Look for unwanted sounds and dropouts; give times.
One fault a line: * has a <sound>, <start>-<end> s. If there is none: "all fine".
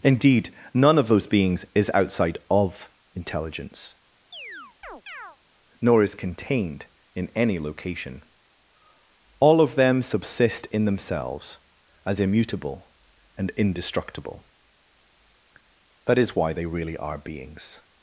* has a chirp, 4.3-5.4 s